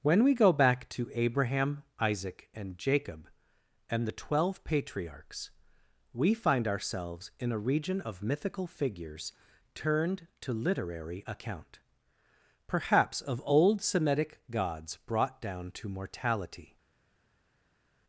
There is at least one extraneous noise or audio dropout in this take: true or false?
false